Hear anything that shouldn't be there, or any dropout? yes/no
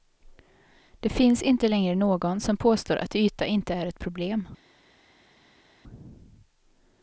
no